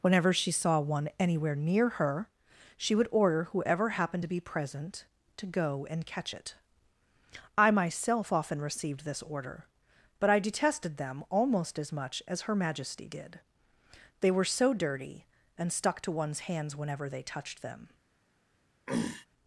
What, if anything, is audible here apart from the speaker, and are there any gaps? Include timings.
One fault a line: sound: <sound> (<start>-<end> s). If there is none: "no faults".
sound: throat clearing (18.9-19.3 s)